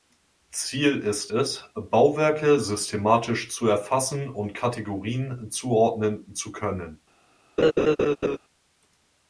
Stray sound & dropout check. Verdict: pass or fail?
fail